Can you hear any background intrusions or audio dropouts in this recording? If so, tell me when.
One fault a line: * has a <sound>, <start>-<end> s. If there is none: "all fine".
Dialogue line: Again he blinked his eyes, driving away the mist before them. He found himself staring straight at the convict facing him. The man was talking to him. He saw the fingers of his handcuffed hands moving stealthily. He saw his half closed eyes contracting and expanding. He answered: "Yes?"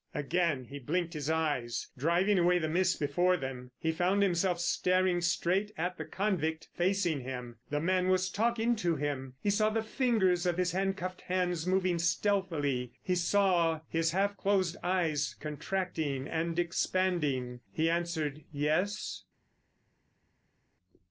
all fine